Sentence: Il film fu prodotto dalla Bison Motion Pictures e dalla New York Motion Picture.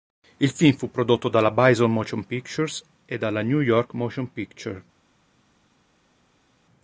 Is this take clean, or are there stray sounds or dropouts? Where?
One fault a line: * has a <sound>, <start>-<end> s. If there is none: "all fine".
all fine